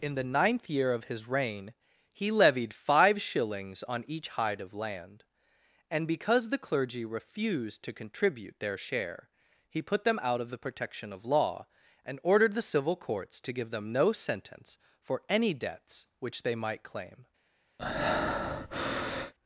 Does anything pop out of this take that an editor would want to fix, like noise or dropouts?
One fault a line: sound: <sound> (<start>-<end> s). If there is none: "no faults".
sound: breath (17.8-19.3 s)